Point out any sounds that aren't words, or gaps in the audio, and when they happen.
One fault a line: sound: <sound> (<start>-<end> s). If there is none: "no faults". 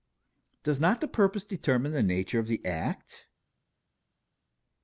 no faults